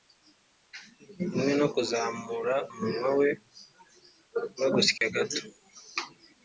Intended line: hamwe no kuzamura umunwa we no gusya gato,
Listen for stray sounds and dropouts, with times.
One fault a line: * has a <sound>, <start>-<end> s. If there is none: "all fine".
* has a dropout, 5.0-5.0 s